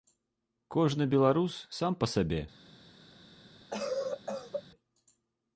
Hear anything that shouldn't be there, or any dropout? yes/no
yes